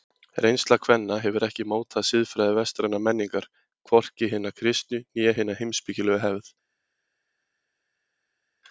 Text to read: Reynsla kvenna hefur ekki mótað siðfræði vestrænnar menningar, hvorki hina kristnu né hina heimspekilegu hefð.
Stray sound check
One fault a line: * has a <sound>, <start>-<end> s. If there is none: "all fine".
all fine